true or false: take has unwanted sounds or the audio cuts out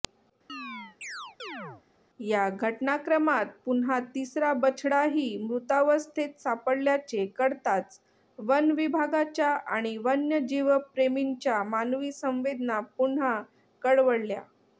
true